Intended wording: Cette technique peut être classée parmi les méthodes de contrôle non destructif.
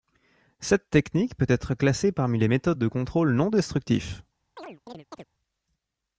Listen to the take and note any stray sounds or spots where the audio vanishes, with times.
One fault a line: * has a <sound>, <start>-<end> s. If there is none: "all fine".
* has a chirp, 4.6-5.3 s